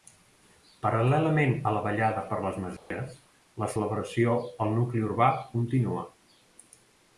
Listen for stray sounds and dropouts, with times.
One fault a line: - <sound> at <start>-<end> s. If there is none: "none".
- dropout at 2.8-2.9 s